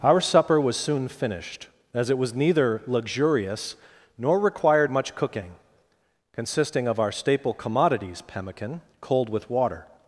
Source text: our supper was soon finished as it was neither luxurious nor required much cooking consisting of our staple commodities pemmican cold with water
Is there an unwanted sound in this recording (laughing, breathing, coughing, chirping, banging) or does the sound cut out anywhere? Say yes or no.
no